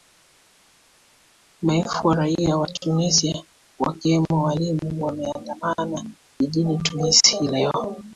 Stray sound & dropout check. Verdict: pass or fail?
pass